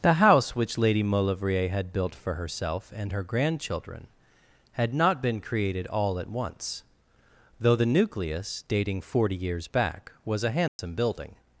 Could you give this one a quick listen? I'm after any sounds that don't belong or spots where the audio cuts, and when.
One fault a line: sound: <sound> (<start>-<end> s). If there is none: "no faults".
sound: dropout (10.7-10.8 s)